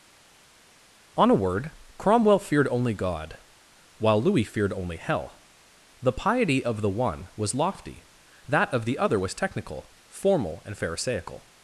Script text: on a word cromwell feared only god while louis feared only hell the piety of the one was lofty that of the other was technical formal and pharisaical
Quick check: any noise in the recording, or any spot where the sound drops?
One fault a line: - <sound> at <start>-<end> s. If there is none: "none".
none